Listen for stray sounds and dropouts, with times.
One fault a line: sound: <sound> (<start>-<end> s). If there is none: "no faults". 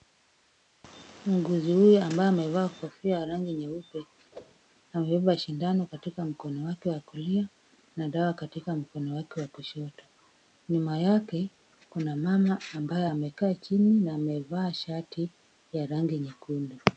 sound: whoosh (4.3-4.6 s)